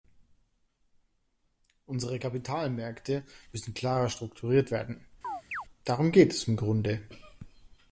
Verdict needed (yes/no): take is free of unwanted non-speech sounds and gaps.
no